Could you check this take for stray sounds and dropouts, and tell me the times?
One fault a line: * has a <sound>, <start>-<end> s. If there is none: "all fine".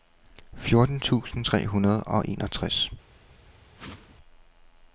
* has a whoosh, 3.8-4.2 s